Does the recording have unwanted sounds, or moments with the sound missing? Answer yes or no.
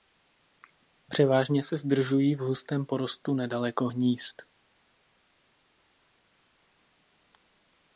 no